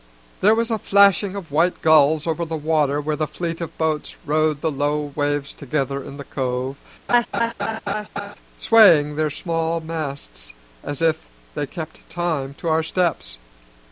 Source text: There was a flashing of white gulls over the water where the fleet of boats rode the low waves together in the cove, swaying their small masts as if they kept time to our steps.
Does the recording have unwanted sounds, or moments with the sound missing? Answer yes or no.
yes